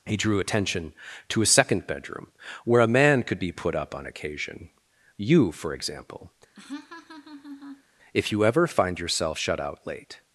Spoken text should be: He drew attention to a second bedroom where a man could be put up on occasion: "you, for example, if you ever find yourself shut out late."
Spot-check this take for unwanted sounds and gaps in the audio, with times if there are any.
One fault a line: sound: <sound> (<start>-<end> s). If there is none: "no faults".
sound: laugh (6.5-7.8 s)